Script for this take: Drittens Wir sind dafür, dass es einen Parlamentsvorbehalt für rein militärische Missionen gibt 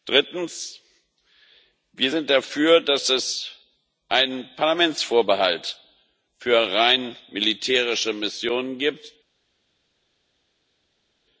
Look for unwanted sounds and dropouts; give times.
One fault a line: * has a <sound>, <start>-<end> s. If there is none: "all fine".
all fine